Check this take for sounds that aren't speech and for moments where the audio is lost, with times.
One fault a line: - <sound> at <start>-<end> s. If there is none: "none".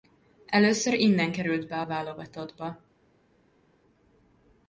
none